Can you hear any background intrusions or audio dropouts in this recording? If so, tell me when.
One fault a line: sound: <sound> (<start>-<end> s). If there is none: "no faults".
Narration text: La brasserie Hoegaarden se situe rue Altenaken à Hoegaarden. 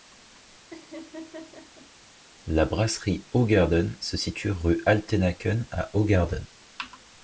sound: laugh (0.7-1.9 s)